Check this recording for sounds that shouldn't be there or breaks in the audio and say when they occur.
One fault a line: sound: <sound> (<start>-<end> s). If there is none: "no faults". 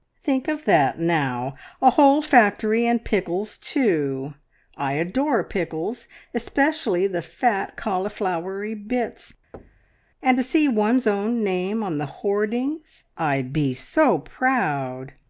sound: thud (9.5-10.0 s)